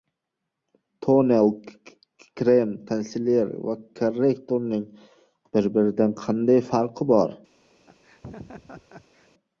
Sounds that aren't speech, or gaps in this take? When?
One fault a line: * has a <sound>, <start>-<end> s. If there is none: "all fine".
* has a laugh, 7.9-9.3 s